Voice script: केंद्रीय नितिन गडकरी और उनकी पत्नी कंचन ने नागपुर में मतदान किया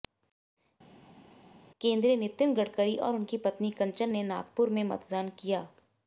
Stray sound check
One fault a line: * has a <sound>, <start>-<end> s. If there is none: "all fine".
all fine